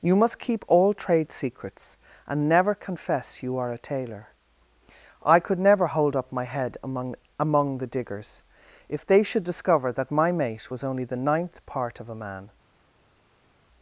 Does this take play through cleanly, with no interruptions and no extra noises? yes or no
yes